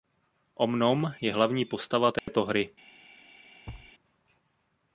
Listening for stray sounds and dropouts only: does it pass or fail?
fail